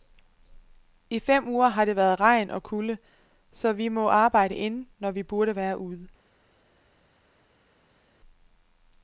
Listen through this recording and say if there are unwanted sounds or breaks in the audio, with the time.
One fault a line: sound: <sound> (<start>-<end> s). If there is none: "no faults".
no faults